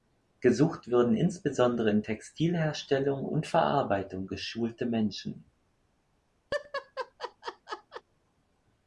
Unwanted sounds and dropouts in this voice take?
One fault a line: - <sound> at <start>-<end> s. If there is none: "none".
- laugh at 6.5-8.0 s